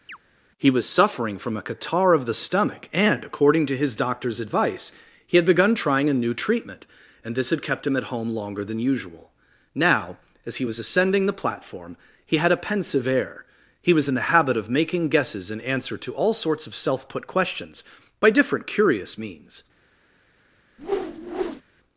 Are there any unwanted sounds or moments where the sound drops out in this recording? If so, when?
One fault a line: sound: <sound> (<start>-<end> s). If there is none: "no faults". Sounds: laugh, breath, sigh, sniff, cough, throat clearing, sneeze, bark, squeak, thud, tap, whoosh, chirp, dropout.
sound: chirp (0.1-0.2 s)
sound: whoosh (20.8-21.6 s)